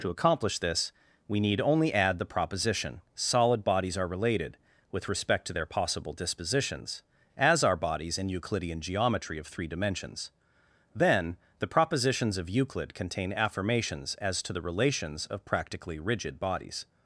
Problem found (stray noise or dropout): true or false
false